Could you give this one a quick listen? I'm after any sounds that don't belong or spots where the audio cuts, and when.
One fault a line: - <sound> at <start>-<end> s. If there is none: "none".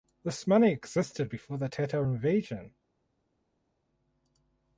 none